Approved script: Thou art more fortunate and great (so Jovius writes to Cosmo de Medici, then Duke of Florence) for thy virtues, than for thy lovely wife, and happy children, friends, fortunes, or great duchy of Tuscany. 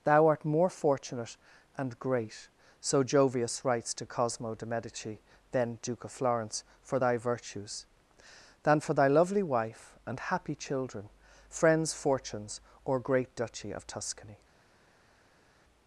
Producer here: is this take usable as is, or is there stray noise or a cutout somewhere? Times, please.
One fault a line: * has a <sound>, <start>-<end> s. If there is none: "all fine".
all fine